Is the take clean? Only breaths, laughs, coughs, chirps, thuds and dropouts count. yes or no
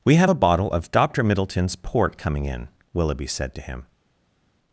yes